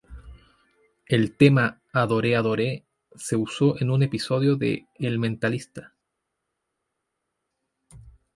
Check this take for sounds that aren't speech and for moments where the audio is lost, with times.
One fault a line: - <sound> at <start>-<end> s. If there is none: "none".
none